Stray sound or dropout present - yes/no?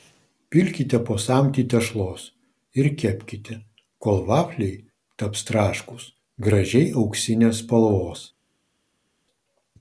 no